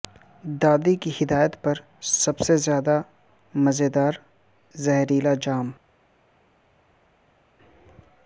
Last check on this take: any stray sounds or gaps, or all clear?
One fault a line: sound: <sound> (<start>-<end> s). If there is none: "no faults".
no faults